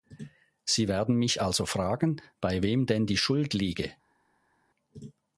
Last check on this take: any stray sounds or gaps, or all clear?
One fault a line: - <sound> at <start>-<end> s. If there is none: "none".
none